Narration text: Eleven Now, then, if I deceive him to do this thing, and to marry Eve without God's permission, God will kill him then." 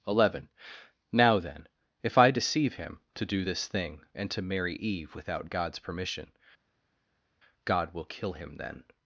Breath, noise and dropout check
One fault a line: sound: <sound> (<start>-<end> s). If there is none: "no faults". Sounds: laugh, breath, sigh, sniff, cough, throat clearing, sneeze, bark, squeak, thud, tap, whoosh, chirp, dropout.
no faults